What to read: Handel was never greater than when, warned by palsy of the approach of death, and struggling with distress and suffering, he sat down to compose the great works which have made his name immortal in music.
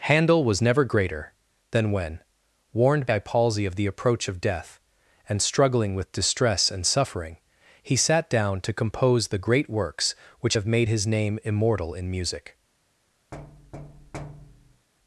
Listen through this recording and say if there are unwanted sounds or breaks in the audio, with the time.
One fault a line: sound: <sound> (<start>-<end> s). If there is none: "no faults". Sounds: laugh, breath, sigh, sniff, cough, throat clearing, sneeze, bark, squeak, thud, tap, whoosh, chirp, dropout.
sound: thud (13.3-14.9 s)